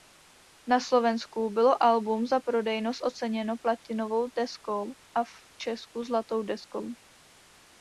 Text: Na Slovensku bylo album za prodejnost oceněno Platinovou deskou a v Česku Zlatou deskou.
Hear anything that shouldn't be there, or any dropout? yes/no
no